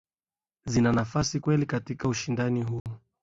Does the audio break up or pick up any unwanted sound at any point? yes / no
yes